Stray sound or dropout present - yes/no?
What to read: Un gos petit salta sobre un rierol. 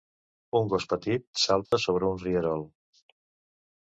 yes